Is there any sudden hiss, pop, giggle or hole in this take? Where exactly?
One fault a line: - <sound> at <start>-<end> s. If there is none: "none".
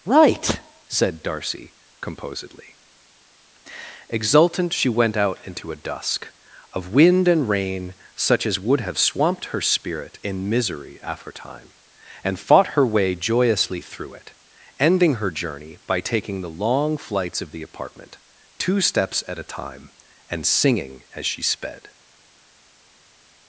none